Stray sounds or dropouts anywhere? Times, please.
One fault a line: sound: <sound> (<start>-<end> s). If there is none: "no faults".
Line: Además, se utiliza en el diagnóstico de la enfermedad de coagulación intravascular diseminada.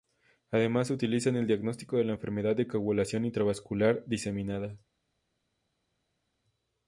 no faults